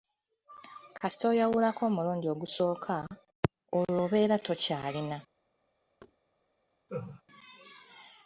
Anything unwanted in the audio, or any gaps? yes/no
yes